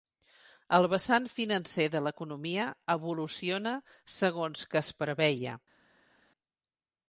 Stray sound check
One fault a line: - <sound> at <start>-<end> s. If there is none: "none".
none